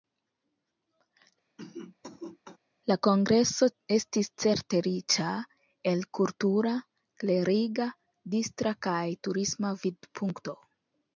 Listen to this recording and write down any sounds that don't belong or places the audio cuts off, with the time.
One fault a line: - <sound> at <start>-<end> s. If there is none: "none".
- cough at 1.6-2.6 s